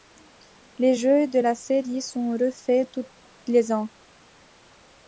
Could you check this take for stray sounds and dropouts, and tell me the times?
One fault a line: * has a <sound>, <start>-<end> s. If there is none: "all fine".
all fine